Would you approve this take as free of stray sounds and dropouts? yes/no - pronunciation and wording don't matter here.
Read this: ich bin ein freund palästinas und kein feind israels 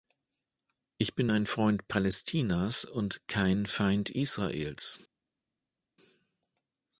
yes